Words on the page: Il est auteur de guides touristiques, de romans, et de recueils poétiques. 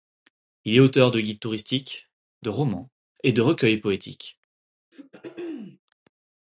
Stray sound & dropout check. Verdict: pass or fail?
fail